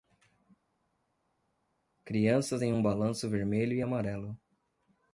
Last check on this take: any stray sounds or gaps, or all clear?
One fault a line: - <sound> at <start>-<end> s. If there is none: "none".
none